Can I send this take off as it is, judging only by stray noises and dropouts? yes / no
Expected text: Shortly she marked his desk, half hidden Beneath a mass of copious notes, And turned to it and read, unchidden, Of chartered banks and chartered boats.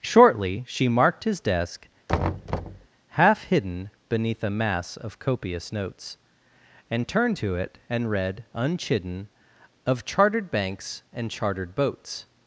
no